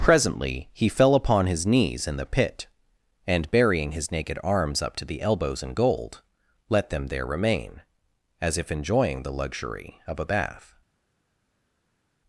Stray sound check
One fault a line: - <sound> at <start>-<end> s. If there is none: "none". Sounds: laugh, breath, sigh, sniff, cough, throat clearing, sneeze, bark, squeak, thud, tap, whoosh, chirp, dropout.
none